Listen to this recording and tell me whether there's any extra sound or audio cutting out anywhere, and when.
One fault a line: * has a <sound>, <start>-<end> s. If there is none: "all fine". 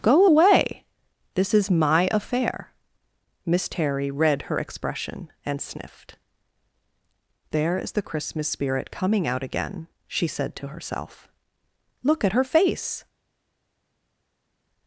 all fine